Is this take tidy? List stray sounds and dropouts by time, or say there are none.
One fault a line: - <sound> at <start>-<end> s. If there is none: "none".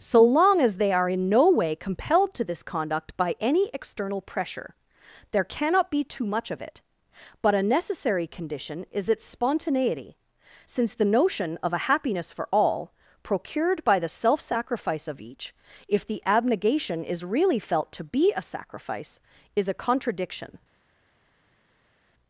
none